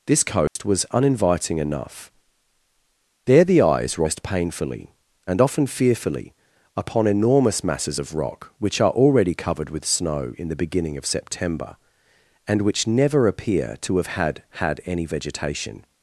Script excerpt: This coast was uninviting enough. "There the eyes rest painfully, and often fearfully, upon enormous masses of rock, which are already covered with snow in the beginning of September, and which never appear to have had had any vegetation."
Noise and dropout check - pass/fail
fail